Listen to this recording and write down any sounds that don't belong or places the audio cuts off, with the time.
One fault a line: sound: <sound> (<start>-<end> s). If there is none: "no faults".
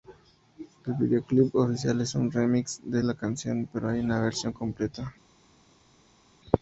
no faults